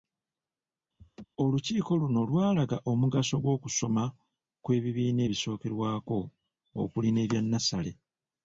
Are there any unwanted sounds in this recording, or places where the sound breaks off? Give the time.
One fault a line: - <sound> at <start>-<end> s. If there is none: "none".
- laugh at 1.0-1.3 s